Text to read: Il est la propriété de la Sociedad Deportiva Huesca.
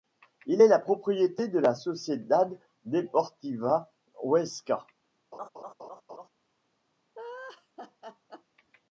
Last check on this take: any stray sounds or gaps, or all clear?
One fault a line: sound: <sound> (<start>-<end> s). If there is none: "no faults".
sound: laugh (5.3-6.3 s)
sound: laugh (7.2-8.4 s)